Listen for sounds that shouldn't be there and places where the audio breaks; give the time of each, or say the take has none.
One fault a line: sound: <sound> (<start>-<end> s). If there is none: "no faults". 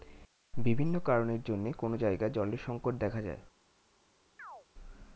sound: chirp (4.4-4.7 s)